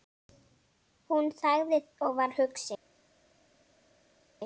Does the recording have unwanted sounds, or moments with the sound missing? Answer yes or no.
no